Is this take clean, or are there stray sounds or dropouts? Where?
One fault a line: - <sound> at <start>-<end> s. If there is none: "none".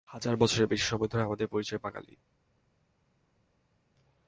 none